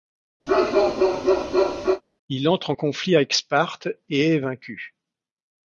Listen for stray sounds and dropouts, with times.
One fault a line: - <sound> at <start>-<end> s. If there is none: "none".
- bark at 0.5-2.0 s